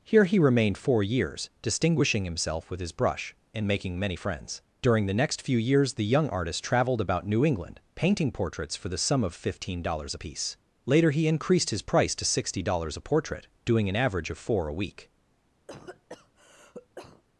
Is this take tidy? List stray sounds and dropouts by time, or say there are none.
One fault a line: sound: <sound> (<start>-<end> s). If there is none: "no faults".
sound: cough (15.7-17.2 s)